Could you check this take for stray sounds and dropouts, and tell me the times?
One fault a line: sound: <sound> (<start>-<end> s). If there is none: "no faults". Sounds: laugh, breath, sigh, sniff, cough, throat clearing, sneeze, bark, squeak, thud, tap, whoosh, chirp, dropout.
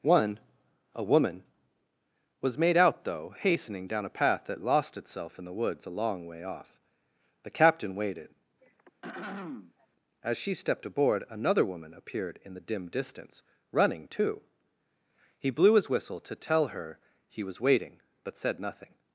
sound: throat clearing (8.6-9.9 s)